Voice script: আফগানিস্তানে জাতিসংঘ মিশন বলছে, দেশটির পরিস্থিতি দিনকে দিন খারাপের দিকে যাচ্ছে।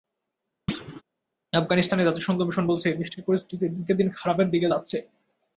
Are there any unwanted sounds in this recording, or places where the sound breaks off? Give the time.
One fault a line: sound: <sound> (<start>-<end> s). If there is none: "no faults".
sound: thud (0.7-1.0 s)